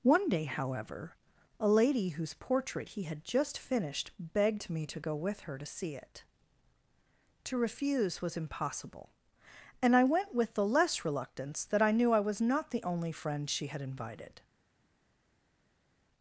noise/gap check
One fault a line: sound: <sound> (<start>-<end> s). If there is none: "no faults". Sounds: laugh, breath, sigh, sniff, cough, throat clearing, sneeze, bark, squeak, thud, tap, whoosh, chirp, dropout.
no faults